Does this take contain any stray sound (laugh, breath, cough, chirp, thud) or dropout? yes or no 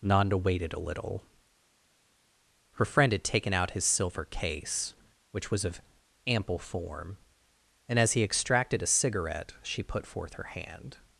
no